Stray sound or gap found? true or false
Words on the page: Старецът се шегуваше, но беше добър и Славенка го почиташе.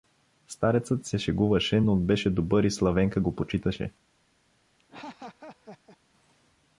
true